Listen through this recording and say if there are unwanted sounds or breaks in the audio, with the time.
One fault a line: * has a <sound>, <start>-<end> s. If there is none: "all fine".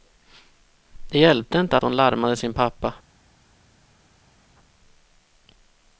all fine